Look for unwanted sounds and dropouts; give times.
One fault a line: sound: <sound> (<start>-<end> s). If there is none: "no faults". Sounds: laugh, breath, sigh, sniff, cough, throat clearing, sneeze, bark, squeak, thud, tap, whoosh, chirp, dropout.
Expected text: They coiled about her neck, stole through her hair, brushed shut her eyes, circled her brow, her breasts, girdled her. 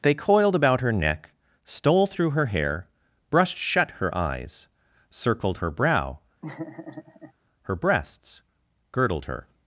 sound: laugh (6.4-7.3 s)